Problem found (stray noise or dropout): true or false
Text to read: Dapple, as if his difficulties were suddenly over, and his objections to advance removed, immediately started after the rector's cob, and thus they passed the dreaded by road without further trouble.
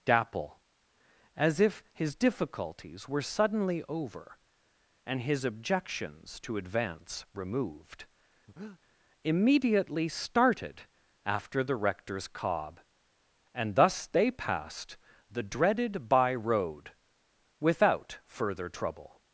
true